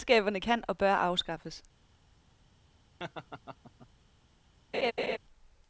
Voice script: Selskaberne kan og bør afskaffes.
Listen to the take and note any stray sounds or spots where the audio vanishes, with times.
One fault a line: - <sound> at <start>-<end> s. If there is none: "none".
- laugh at 3.0-3.9 s
- laugh at 4.7-5.2 s